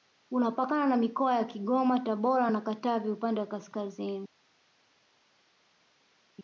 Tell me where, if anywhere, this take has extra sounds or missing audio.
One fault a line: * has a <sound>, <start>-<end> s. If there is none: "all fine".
all fine